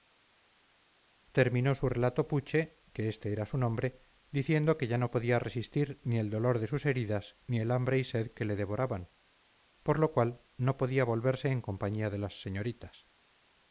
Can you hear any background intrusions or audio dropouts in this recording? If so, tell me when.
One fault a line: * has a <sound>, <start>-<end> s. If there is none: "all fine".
all fine